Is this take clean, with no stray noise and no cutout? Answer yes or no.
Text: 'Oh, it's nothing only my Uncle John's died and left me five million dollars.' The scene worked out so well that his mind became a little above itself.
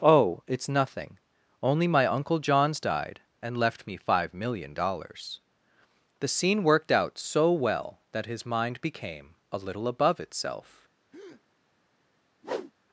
no